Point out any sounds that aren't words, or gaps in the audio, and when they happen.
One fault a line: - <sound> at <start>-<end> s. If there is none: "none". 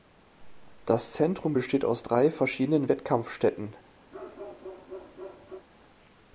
- bark at 4.1-5.7 s